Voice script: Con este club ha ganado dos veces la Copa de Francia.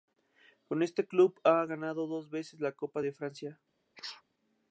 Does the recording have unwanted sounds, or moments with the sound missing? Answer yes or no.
yes